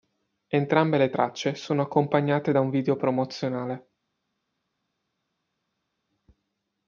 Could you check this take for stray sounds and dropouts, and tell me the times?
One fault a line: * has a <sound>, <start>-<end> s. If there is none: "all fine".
all fine